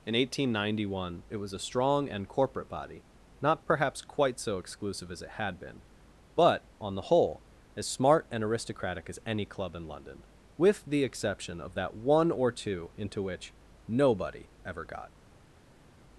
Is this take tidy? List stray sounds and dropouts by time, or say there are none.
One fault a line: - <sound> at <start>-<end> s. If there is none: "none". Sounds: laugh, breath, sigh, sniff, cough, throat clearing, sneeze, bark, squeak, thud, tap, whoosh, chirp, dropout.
none